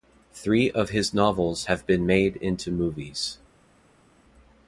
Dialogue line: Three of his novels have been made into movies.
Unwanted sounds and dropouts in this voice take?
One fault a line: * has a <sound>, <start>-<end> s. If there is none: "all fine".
all fine